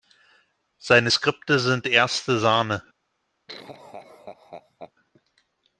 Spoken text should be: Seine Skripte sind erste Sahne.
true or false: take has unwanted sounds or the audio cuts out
true